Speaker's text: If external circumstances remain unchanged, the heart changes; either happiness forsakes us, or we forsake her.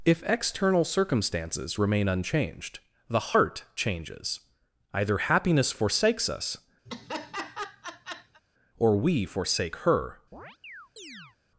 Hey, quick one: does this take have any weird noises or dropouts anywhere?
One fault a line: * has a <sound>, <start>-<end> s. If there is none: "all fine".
* has a laugh, 6.9-8.4 s
* has a chirp, 10.3-11.4 s